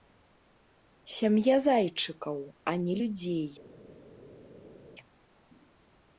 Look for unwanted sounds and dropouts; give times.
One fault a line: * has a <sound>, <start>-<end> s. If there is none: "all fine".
all fine